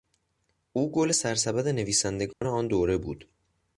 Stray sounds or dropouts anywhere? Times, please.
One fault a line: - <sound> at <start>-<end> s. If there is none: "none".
- dropout at 2.3-2.4 s